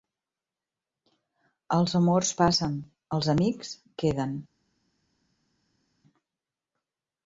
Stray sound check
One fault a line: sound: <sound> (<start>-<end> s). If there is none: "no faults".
no faults